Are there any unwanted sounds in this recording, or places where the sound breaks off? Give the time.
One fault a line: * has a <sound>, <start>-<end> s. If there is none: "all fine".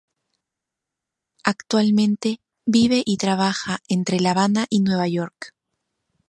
all fine